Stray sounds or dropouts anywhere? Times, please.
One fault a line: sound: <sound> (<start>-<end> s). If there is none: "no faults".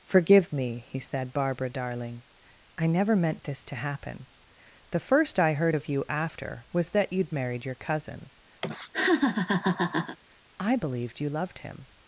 sound: laugh (8.6-10.2 s)